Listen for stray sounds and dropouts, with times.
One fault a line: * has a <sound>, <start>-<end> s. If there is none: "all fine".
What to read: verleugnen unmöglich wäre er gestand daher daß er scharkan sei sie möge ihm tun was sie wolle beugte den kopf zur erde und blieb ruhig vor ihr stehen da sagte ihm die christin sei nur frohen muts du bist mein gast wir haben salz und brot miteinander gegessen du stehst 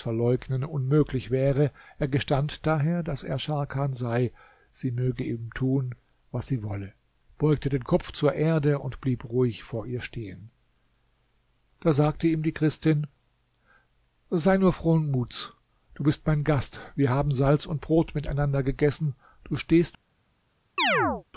* has a chirp, 20.8-21.2 s